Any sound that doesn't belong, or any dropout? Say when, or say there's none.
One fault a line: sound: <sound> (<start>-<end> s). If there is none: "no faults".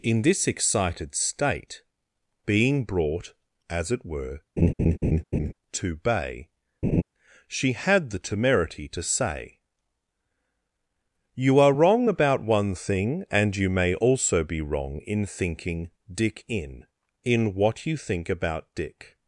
sound: laugh (4.6-5.5 s)
sound: laugh (6.8-7.0 s)